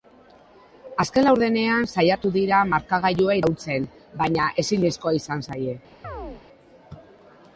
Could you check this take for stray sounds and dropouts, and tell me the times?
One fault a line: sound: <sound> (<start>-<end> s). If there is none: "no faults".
sound: chirp (6.0-6.4 s)